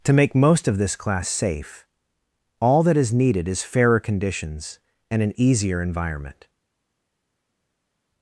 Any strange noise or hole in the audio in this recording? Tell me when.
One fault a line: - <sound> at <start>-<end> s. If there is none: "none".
none